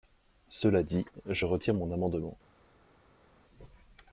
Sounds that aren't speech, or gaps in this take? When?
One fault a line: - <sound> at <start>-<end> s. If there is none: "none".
none